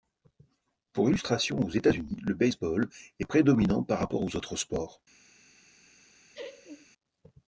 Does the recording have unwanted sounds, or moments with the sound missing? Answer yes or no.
yes